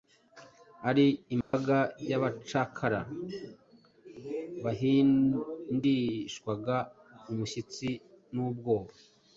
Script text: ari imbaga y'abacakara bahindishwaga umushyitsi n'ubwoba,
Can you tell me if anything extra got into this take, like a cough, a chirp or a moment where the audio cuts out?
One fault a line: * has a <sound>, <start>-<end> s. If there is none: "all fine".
* has a dropout, 1.4-1.5 s